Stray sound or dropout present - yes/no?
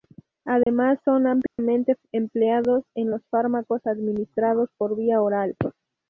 yes